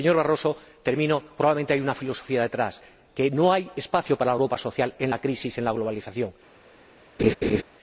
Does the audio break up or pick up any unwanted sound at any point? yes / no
yes